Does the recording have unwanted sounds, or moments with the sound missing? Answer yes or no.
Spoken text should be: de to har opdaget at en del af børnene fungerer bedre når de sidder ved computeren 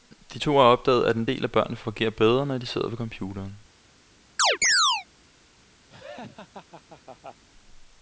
yes